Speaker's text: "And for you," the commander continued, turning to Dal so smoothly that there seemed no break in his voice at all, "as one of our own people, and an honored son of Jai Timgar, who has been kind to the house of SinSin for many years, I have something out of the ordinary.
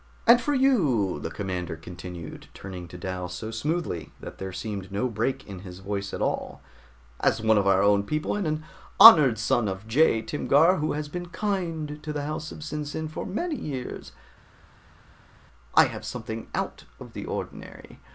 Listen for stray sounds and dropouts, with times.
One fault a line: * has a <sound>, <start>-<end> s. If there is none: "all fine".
all fine